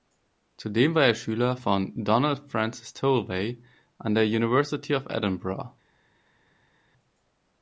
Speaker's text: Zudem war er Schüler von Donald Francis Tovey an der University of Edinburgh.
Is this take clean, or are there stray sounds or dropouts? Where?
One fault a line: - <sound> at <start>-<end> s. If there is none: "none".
none